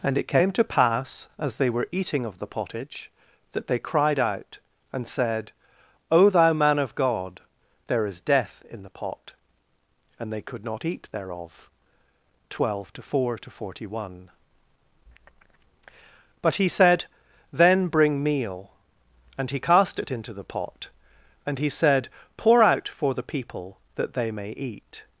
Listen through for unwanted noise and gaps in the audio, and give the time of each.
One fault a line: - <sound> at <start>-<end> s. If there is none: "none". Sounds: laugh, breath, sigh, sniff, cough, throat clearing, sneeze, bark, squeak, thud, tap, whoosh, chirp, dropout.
none